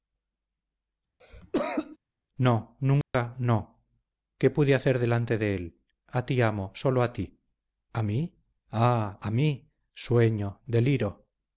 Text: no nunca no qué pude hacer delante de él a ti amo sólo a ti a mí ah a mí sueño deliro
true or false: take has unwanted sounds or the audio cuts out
true